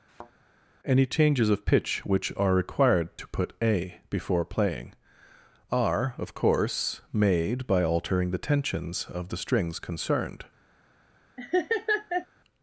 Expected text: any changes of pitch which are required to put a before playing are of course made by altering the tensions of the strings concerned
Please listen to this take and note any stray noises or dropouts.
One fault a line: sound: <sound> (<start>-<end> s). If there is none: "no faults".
sound: thud (0.1-0.3 s)
sound: laugh (11.4-12.3 s)